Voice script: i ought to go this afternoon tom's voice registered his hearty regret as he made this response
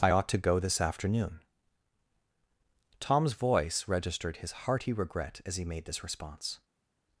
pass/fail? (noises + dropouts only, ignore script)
pass